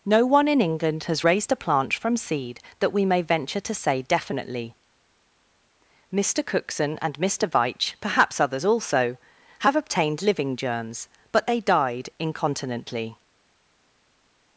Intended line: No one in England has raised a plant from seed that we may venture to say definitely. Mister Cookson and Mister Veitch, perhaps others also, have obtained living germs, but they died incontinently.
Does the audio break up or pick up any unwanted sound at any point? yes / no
no